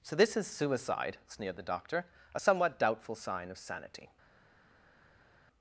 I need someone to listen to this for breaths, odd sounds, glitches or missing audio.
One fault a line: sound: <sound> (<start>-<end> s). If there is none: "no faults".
no faults